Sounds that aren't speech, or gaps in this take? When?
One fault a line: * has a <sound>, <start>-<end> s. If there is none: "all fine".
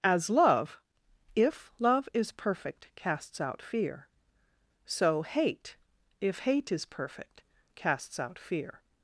all fine